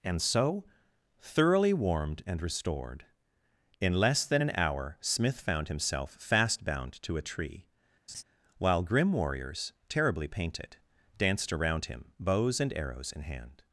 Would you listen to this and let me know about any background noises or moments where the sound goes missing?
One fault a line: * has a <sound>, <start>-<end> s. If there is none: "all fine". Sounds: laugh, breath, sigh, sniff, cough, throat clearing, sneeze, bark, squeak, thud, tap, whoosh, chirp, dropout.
* has a laugh, 8.1-8.2 s